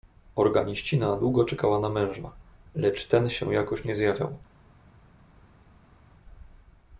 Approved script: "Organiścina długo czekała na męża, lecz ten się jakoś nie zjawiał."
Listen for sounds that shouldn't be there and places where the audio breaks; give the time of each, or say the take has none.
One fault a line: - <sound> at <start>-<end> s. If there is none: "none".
none